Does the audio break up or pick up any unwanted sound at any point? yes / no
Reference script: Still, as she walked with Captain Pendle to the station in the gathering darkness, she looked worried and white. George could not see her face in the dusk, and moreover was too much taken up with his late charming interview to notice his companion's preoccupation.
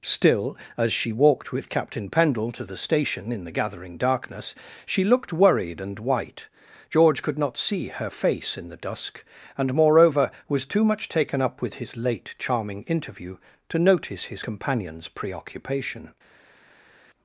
no